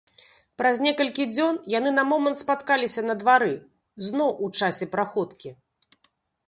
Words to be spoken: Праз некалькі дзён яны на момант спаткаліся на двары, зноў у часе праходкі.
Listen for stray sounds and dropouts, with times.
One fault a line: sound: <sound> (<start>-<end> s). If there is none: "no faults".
no faults